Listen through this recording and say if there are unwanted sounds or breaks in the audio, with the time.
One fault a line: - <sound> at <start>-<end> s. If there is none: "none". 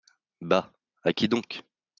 none